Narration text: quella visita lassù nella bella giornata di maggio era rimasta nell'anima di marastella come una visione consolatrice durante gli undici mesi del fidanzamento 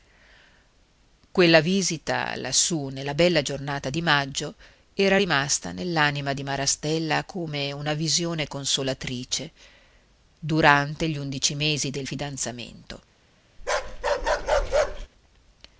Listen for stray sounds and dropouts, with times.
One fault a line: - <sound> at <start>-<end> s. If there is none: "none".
- bark at 13.6-15.1 s